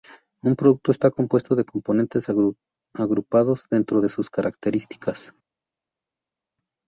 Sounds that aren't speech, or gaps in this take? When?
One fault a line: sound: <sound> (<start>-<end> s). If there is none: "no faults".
no faults